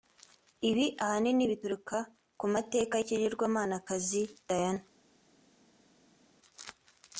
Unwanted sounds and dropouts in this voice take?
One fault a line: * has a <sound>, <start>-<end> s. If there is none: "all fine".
all fine